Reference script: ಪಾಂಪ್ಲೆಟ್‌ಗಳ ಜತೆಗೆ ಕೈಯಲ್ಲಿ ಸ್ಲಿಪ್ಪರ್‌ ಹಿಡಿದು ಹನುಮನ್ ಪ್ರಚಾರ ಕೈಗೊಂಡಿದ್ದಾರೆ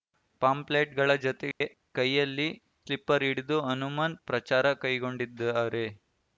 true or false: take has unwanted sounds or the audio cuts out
true